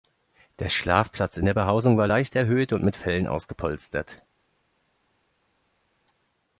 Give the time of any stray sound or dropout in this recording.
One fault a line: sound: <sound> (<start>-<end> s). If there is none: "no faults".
no faults